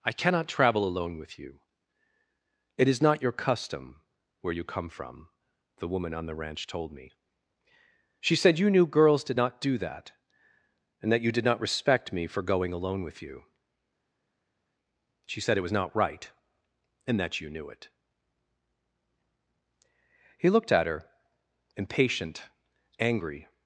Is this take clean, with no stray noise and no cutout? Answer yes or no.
yes